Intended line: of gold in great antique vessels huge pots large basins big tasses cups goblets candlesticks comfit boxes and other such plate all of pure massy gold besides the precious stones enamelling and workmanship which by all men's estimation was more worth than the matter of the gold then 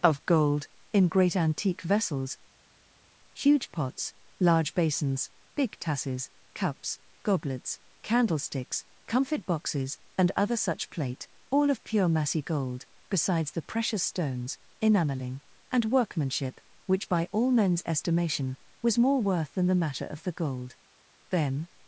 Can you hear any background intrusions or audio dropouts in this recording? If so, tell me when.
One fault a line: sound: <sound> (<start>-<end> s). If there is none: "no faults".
no faults